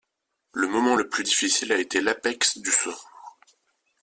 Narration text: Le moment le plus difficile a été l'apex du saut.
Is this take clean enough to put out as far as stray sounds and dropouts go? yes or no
yes